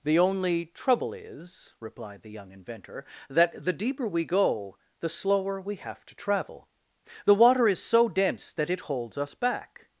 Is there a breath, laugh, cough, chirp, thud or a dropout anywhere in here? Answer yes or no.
no